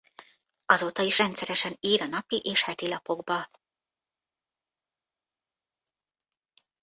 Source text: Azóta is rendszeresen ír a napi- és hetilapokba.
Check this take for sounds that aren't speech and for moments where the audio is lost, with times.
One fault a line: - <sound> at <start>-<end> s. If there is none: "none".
none